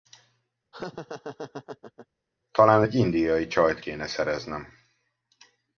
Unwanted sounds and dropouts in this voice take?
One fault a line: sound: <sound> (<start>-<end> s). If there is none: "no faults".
sound: laugh (0.7-2.1 s)